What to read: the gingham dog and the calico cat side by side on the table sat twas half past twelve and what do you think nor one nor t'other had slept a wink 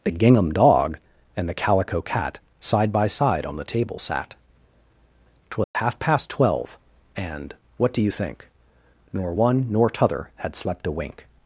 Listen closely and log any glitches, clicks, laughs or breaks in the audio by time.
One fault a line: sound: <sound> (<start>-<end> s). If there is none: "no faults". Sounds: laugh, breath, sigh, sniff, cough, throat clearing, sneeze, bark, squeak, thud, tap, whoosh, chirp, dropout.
sound: dropout (5.6-5.8 s)